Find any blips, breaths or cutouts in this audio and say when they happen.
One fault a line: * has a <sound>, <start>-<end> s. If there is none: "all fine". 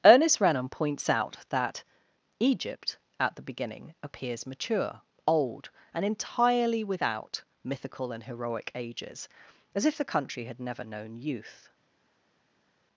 all fine